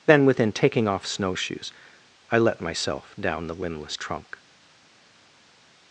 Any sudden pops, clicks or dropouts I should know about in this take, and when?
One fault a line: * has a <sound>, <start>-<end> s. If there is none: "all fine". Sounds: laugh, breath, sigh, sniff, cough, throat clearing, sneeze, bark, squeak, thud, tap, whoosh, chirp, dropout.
all fine